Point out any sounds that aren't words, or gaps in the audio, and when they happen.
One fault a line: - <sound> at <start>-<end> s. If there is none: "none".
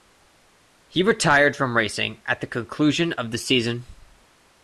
none